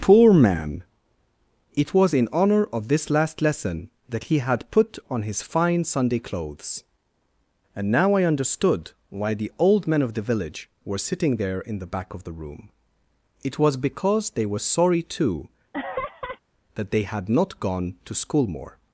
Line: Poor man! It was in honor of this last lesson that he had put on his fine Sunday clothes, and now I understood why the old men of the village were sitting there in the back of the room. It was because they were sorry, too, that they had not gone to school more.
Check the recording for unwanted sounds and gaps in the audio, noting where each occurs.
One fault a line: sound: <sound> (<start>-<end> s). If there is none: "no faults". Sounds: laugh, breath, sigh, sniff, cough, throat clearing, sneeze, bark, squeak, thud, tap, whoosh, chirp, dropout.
sound: laugh (15.7-16.4 s)